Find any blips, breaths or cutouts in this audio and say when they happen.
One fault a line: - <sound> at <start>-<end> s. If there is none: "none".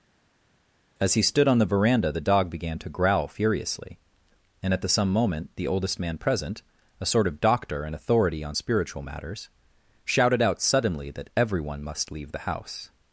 none